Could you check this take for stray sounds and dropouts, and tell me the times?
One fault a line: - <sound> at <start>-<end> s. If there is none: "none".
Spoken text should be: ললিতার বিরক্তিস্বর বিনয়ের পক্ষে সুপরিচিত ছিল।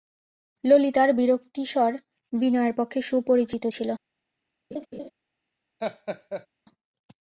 - laugh at 4.7-5.1 s
- laugh at 5.8-6.5 s